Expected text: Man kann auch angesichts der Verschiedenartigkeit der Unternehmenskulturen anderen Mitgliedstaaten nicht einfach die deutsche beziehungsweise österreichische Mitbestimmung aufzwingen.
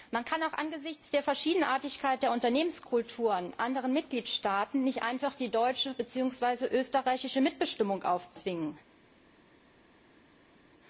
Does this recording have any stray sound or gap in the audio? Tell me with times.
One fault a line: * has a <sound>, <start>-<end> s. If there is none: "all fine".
all fine